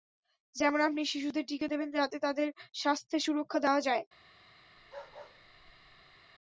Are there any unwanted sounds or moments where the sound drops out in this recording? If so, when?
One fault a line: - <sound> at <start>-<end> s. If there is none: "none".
- bark at 4.8-6.2 s